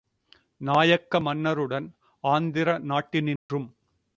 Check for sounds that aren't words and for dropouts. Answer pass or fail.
fail